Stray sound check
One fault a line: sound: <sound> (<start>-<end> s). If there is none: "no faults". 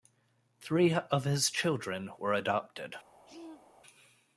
sound: throat clearing (3.3-3.7 s)